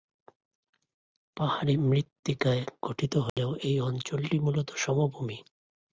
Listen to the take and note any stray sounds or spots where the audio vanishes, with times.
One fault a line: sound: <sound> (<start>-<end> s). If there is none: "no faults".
sound: dropout (3.3-3.4 s)